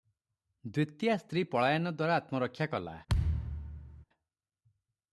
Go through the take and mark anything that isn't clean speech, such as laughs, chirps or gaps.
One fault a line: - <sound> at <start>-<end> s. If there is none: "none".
- thud at 3.1-4.1 s